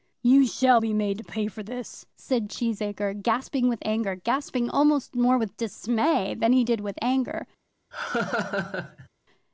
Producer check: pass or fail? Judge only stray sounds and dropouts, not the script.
fail